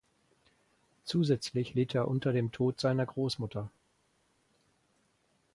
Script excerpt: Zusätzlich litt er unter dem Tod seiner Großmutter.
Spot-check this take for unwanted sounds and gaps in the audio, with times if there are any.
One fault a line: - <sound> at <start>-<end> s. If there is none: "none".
none